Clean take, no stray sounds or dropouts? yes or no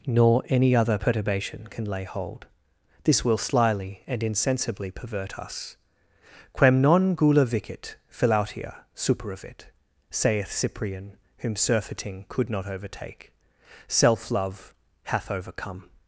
yes